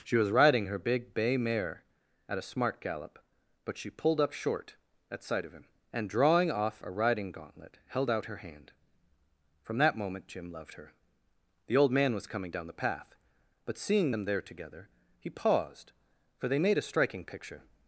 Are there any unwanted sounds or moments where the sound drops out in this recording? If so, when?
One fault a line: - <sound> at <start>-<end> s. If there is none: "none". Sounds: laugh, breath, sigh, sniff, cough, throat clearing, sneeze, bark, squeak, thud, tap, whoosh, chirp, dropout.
none